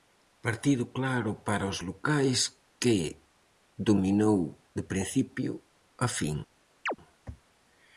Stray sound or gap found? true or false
true